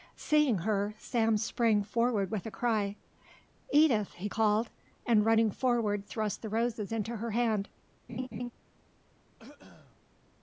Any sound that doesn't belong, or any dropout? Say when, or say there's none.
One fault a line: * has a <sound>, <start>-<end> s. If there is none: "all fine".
* has a laugh, 8.1-8.5 s
* has a throat clearing, 9.4-10.0 s